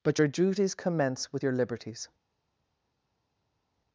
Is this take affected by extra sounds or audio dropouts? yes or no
no